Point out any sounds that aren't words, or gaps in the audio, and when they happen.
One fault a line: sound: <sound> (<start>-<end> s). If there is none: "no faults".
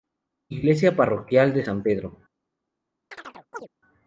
sound: chirp (3.1-3.7 s)